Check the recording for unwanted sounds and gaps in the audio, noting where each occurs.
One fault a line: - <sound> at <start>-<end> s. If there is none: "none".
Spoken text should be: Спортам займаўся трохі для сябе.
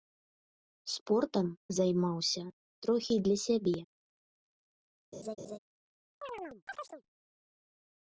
- laugh at 5.1-5.6 s
- chirp at 6.2-7.0 s